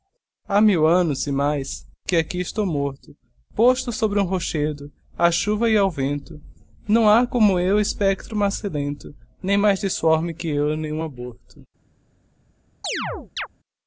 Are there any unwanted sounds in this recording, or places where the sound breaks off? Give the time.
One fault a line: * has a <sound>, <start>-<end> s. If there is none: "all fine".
* has a chirp, 12.8-13.5 s